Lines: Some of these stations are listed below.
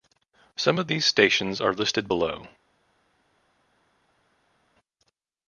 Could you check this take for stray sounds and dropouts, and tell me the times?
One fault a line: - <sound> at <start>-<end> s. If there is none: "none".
none